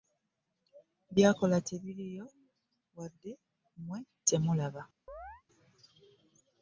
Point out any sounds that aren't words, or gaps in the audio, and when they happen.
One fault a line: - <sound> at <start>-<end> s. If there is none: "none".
- chirp at 5.1-5.4 s